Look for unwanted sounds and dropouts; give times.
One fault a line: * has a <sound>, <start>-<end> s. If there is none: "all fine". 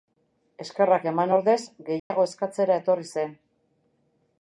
* has a dropout, 2.0-2.1 s